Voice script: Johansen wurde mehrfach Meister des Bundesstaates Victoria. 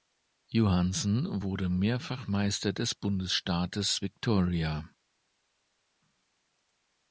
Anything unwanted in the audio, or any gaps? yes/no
no